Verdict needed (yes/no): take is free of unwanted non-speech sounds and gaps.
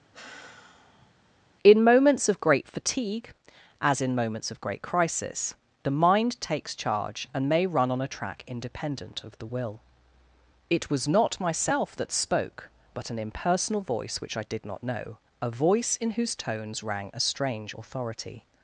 no